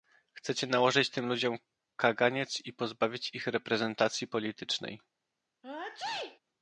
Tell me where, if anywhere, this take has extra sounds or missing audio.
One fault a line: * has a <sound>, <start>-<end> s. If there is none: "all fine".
* has a sneeze, 5.6-6.4 s